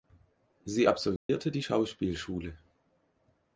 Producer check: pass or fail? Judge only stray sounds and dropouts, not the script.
fail